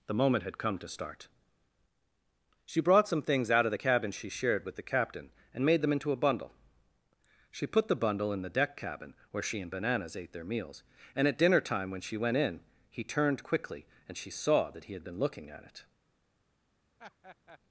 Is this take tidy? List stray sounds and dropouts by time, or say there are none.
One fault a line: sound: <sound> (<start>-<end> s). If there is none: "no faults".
sound: laugh (17.0-17.6 s)